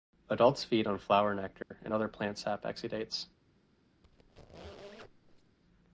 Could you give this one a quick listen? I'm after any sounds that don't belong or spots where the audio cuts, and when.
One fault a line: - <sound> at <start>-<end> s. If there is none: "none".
- dropout at 1.6-1.7 s
- squeak at 4.0-5.6 s